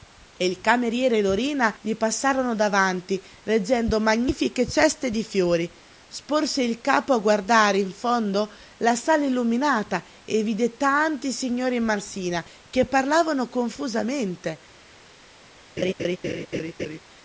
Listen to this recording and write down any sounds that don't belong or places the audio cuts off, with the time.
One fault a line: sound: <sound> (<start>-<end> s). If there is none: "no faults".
sound: laugh (15.8-17.0 s)